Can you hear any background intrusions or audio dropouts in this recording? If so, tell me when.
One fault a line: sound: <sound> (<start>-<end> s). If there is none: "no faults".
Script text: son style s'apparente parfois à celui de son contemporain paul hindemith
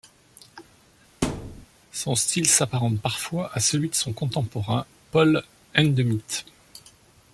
sound: thud (1.2-1.7 s)